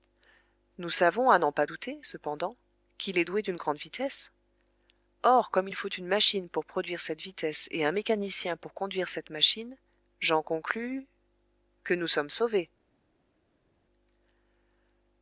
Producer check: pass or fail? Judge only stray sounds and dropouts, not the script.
pass